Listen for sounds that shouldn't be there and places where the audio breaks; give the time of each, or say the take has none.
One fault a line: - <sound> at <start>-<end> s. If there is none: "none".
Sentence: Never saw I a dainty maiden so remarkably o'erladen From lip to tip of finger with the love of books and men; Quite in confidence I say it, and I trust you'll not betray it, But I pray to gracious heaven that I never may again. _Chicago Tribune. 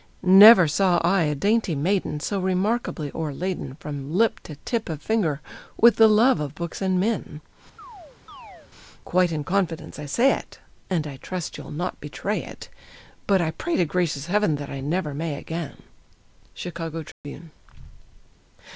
- chirp at 7.8-8.7 s
- dropout at 17.1-17.2 s